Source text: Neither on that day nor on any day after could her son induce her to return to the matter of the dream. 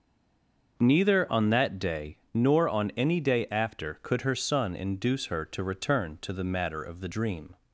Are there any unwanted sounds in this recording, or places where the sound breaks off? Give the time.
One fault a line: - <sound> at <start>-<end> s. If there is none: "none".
none